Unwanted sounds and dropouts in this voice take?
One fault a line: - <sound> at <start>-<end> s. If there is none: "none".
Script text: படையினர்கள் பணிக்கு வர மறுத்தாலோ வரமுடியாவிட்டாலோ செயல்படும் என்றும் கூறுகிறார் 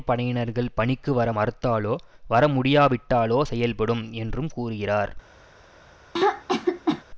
- throat clearing at 6.1-7.0 s